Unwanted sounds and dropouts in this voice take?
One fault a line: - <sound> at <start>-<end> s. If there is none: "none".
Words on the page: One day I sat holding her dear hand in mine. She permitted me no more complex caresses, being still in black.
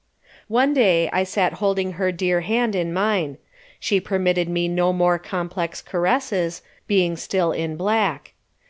none